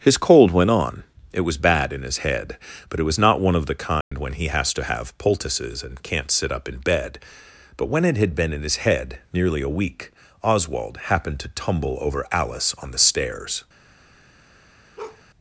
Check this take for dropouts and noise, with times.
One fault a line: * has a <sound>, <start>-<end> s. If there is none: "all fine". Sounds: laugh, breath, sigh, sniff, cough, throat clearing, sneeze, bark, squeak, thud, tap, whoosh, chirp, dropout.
* has a dropout, 4.0-4.1 s
* has a bark, 15.0-15.2 s